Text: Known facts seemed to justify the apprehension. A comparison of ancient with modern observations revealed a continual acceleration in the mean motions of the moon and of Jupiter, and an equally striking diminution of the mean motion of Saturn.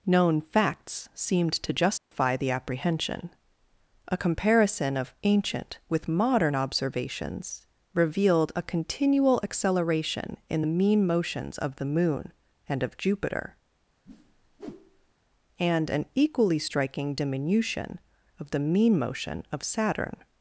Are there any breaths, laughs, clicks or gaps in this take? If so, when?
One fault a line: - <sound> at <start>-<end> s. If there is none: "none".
- dropout at 2.0-2.1 s
- whoosh at 14.1-15.1 s